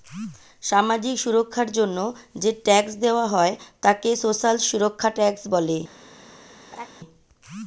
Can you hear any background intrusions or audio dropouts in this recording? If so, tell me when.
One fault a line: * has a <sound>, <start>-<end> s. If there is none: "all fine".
* has a laugh, 6.7-6.9 s